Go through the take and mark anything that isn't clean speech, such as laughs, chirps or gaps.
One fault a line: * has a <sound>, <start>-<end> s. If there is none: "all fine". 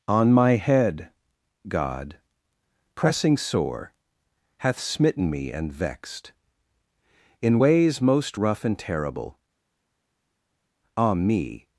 all fine